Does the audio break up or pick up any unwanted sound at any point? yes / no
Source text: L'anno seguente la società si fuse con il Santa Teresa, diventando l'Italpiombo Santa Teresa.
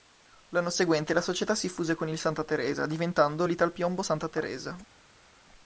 no